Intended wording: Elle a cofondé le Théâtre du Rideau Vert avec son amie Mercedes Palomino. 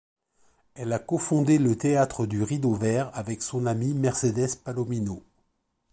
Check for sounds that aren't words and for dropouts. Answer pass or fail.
pass